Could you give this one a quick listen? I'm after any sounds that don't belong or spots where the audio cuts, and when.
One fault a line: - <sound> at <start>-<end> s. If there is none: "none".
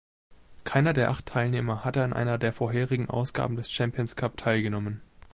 none